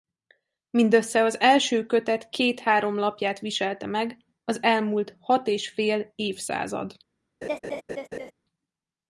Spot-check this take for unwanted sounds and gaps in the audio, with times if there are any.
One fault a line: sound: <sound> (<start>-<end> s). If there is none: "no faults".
sound: laugh (7.4-8.3 s)